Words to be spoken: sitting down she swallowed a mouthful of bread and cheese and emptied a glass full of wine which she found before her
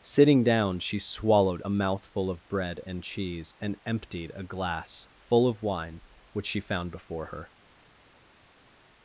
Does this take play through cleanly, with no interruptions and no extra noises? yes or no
yes